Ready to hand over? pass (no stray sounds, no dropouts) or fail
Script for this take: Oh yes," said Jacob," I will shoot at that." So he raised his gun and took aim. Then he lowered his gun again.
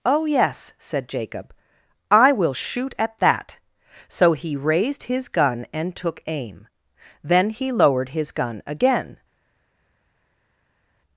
pass